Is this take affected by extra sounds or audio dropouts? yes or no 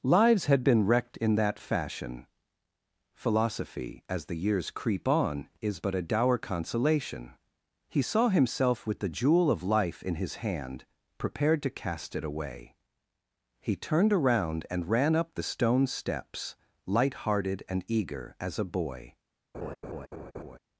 yes